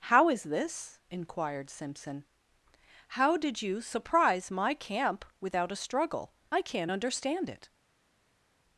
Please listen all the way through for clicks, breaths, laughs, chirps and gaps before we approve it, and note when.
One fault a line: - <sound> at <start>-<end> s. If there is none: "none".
none